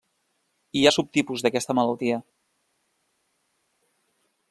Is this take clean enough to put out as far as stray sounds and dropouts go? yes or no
yes